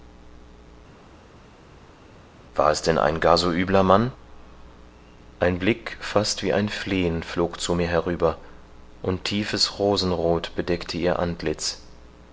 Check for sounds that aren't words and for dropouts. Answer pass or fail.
pass